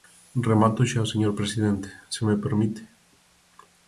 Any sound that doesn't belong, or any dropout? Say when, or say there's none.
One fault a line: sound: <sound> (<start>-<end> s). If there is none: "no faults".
no faults